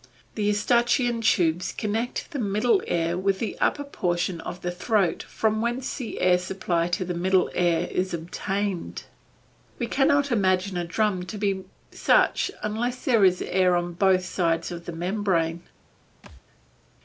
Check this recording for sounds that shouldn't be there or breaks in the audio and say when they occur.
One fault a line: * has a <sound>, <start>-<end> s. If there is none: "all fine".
* has a thud, 16.2-16.4 s